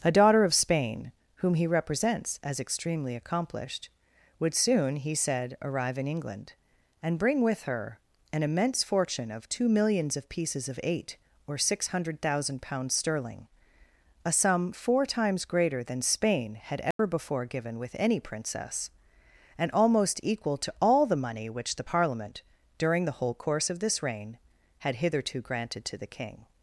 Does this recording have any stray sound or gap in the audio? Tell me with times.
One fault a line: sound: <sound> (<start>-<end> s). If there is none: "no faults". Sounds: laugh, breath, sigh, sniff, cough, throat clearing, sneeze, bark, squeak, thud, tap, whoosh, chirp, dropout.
sound: dropout (16.9-17.0 s)